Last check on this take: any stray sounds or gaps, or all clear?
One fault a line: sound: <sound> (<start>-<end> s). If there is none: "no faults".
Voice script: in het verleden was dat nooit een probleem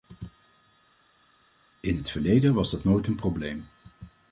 no faults